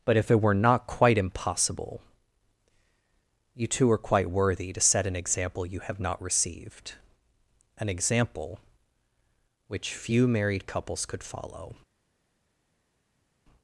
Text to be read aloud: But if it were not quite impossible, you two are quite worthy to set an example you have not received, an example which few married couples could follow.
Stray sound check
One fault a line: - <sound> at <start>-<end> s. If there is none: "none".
none